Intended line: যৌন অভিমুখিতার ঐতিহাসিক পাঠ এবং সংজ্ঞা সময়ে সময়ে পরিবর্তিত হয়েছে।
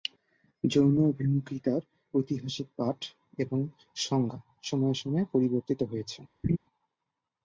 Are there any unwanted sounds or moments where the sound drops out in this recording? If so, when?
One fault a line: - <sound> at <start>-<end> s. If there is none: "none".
- laugh at 6.4-6.6 s